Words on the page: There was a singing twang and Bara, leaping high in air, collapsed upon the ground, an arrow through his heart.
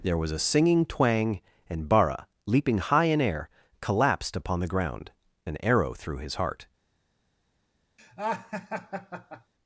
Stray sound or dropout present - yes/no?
yes